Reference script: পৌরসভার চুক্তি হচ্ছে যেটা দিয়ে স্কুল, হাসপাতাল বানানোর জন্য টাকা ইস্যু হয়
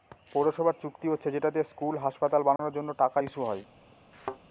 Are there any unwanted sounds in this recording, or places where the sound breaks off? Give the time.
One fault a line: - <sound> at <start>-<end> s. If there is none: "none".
- dropout at 2.6-2.6 s
- thud at 4.1-4.4 s